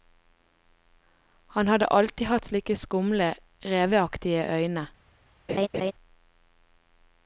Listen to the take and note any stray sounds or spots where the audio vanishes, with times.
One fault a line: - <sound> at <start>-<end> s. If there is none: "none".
- laugh at 5.5-5.9 s